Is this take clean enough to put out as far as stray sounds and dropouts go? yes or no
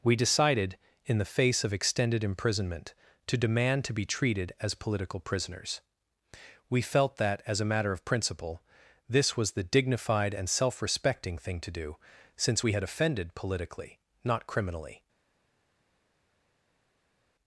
yes